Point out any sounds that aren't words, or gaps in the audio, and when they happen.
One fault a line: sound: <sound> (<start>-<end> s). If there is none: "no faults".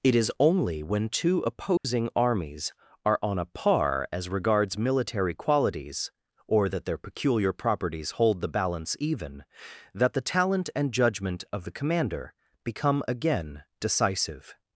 sound: dropout (1.8-1.8 s)